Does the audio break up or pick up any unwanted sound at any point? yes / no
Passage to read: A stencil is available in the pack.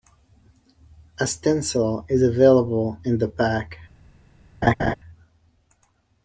yes